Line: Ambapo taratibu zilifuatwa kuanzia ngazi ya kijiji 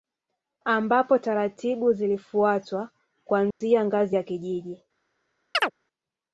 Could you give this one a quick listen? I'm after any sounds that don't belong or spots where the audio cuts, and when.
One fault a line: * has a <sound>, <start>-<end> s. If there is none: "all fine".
* has a dropout, 3.5-3.6 s
* has a chirp, 5.5-5.7 s